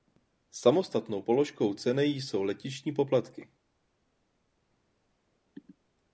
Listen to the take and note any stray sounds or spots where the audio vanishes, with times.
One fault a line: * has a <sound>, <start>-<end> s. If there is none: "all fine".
all fine